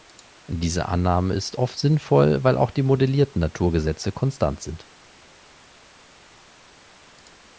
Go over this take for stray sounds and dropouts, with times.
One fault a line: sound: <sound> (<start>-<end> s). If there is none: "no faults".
no faults